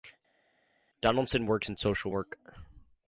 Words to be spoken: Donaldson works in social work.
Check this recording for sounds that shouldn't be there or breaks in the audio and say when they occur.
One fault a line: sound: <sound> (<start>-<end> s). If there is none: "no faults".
no faults